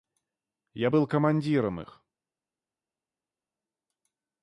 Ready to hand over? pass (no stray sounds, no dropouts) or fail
pass